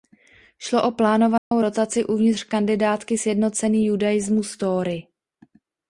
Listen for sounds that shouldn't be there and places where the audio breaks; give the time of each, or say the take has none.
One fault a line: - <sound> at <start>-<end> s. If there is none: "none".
- dropout at 1.4-1.5 s